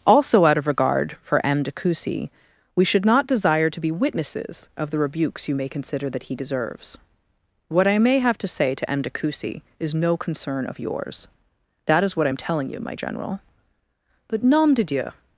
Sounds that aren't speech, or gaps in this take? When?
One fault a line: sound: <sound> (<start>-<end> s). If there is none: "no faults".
no faults